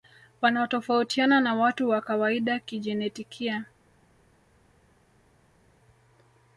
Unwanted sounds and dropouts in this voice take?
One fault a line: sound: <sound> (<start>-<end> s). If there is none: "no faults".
no faults